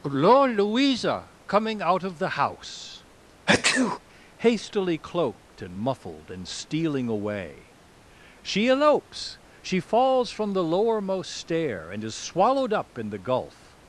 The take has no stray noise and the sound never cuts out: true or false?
false